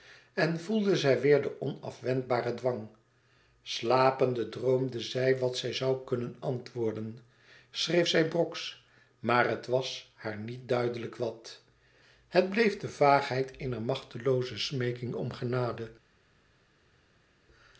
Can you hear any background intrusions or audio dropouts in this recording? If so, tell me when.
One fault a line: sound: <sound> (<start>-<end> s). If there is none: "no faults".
no faults